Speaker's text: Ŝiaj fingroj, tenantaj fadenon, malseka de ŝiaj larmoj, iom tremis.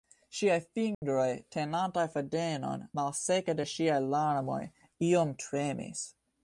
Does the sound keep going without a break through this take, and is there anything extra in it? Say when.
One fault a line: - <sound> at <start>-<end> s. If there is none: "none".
- dropout at 0.9-1.0 s